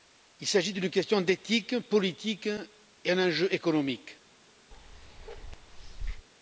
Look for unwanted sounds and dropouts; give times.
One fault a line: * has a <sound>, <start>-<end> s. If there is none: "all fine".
* has a bark, 4.7-6.3 s